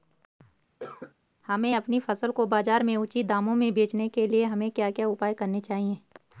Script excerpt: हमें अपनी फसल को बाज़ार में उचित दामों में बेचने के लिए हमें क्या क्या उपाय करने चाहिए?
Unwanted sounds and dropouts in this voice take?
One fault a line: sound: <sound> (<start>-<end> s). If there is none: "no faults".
sound: cough (0.8-1.1 s)